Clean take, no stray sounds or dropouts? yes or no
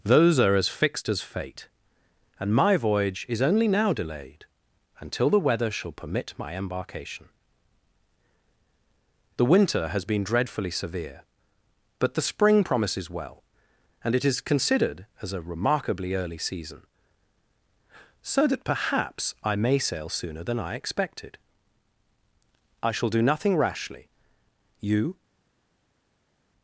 yes